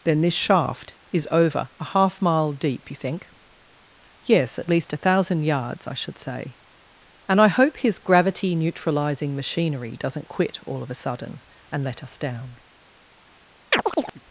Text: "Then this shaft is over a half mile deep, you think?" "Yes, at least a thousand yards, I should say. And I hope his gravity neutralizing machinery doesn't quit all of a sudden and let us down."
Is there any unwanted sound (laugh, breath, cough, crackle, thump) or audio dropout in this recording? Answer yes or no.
yes